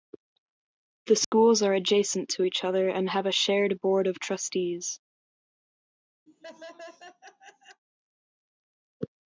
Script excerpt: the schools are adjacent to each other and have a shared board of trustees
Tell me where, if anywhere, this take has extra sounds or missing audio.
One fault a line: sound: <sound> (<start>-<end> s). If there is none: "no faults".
sound: dropout (1.2-1.3 s)
sound: laugh (6.3-7.8 s)